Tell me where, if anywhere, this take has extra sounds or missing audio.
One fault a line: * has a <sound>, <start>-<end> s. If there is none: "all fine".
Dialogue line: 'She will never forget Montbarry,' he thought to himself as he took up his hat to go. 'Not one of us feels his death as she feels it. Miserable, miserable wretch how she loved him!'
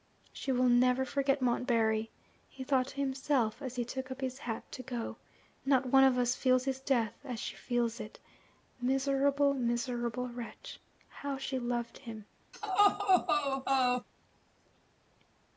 * has a laugh, 12.5-14.1 s